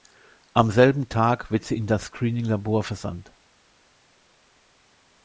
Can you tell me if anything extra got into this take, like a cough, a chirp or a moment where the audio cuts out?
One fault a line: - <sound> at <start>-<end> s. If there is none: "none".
none